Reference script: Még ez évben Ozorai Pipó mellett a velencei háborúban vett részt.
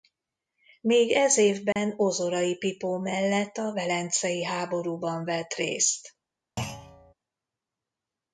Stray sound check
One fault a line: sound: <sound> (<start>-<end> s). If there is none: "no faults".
sound: dropout (1.7-1.8 s)
sound: thud (6.6-7.1 s)